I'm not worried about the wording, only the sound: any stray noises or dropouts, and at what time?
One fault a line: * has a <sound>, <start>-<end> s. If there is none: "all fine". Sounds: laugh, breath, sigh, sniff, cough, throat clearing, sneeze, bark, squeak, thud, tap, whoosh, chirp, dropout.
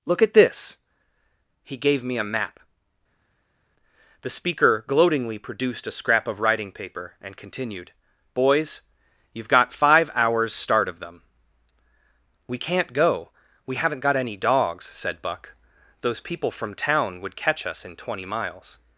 all fine